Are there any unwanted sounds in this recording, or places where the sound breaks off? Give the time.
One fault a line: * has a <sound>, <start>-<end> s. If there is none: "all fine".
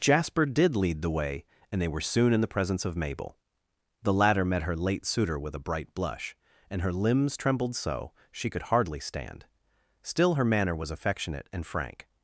all fine